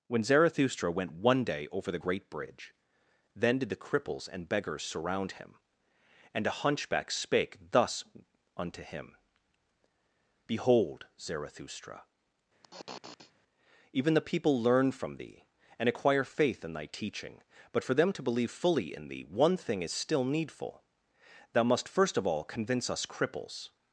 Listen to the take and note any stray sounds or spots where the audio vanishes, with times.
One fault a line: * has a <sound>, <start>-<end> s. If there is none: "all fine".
* has a sniff, 12.6-13.3 s